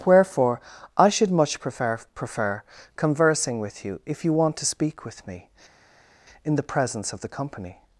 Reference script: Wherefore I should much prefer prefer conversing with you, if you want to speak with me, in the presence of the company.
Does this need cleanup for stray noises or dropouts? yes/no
no